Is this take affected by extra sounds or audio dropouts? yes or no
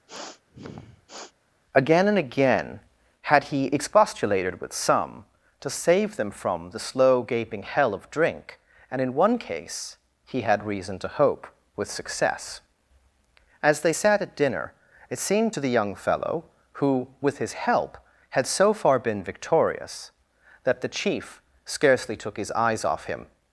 yes